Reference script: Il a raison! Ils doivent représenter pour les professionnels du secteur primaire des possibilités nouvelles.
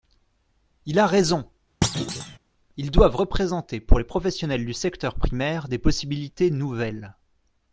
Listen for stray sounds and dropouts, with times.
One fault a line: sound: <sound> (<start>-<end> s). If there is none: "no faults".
sound: thud (1.8-2.4 s)